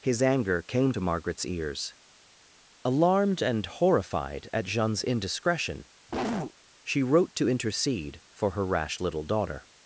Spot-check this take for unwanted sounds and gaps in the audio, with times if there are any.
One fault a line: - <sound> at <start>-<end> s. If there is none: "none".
- cough at 6.1-6.5 s